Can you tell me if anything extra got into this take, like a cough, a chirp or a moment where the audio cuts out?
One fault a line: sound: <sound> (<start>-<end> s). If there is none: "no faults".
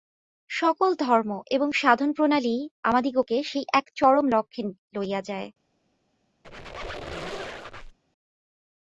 sound: squeak (6.4-8.0 s)